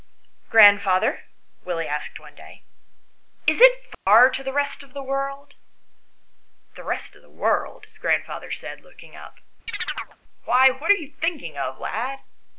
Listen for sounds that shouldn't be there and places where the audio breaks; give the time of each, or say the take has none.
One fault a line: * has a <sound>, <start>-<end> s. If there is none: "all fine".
* has a dropout, 3.9-4.1 s
* has a chirp, 9.7-10.2 s